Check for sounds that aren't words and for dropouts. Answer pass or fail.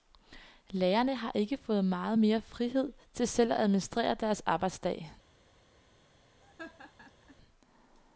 fail